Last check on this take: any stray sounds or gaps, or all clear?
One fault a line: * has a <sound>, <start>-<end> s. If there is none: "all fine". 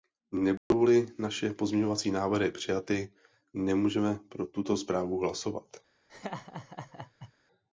* has a dropout, 0.6-0.7 s
* has a laugh, 6.1-7.3 s